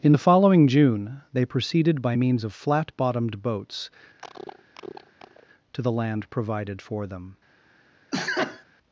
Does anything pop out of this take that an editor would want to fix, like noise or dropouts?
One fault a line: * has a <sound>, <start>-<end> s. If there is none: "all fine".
* has a cough, 4.2-5.5 s
* has a sneeze, 8.1-8.6 s